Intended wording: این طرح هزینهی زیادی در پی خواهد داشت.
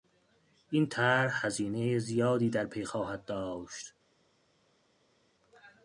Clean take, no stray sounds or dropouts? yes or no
yes